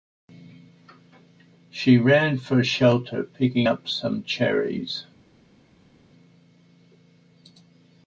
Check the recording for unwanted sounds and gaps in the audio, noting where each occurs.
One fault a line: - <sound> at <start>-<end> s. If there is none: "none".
none